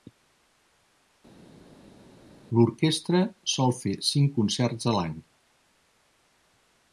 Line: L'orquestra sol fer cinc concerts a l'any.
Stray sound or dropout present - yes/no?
no